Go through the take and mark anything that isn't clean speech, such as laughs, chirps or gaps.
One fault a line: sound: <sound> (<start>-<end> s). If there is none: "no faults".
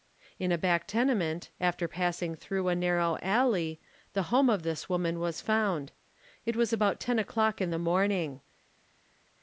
no faults